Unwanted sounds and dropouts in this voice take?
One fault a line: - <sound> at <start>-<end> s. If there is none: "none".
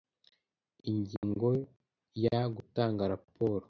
- dropout at 1.2-1.2 s